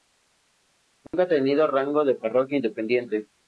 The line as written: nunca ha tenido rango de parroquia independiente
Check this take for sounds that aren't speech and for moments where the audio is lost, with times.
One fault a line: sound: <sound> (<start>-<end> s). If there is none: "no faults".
sound: dropout (1.1-1.1 s)